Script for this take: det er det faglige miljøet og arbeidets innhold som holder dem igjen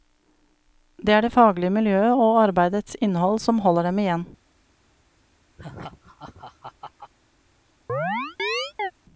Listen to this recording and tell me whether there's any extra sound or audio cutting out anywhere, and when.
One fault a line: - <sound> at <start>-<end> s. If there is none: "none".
- laugh at 5.6-7.1 s
- chirp at 7.9-8.9 s